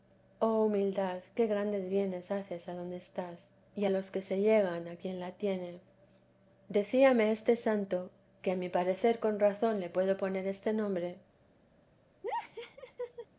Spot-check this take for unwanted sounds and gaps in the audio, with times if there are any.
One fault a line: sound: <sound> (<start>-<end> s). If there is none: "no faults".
sound: laugh (12.2-13.3 s)